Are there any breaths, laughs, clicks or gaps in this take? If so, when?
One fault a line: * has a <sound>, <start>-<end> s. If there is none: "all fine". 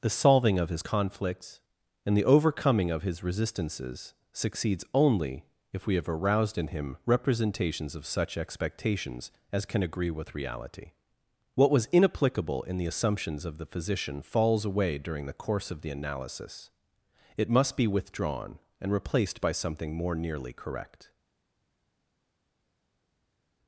all fine